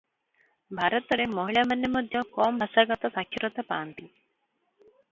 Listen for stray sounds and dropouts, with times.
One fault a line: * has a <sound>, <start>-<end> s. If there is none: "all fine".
all fine